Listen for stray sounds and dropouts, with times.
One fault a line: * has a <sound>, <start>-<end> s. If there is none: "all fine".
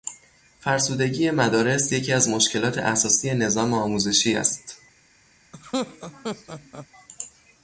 * has a laugh, 5.5-6.9 s